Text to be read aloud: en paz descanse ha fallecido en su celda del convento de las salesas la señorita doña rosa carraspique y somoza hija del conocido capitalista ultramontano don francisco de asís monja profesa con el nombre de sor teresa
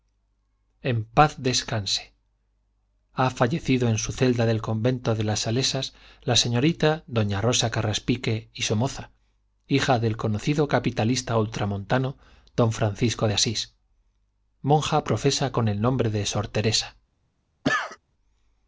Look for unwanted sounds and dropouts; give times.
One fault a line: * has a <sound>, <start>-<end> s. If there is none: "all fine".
* has a cough, 17.6-18.0 s